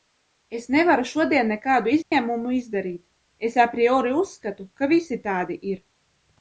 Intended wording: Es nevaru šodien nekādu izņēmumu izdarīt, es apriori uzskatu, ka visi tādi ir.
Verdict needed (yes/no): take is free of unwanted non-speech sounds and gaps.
no